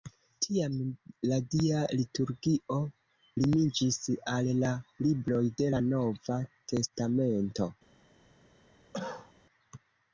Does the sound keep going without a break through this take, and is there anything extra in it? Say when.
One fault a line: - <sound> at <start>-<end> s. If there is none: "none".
- cough at 8.9-9.3 s